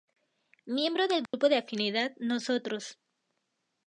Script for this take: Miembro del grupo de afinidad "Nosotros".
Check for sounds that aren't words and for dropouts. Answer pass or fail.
fail